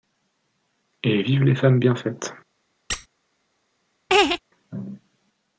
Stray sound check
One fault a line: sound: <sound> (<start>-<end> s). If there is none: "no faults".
sound: squeak (2.9-3.1 s)
sound: laugh (4.1-4.4 s)